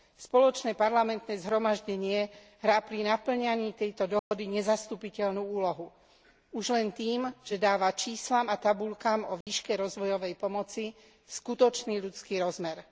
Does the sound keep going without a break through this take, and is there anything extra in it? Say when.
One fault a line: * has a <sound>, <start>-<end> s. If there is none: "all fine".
* has a dropout, 4.2-4.3 s
* has a dropout, 9.4-9.5 s